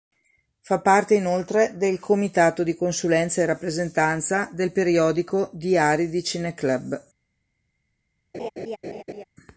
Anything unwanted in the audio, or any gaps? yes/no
yes